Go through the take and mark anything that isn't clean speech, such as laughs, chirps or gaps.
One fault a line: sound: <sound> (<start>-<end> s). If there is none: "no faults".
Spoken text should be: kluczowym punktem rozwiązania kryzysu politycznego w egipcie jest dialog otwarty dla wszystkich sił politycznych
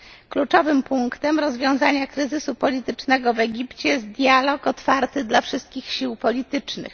no faults